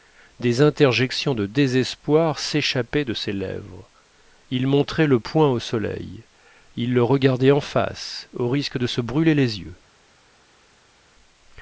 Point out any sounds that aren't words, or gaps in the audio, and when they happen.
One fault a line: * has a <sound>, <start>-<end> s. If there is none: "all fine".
all fine